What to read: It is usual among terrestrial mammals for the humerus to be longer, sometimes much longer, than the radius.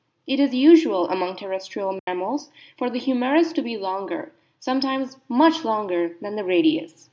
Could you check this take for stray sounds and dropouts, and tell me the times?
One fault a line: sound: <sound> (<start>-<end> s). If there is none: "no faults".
sound: dropout (2.0-2.1 s)